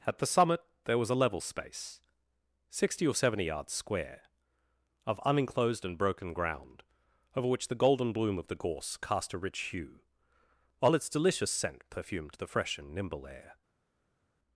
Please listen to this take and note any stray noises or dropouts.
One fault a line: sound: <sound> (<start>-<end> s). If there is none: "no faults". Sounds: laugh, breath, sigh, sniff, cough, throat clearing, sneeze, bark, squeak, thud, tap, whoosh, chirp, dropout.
no faults